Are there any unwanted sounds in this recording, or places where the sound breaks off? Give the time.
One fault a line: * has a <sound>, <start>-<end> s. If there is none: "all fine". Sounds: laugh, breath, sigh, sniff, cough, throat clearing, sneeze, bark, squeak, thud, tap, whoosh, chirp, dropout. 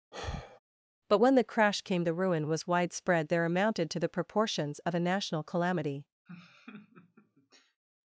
* has a sigh, 0.1-0.6 s
* has a laugh, 6.3-7.8 s